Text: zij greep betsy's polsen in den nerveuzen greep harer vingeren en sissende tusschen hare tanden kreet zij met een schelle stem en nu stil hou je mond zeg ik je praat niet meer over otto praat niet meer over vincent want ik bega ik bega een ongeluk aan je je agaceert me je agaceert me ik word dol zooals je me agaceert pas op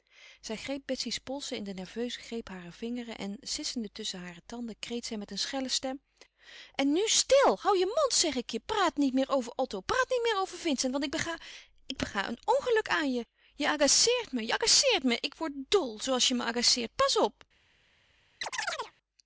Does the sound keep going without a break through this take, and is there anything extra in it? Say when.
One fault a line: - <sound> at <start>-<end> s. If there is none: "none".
- chirp at 18.4-18.9 s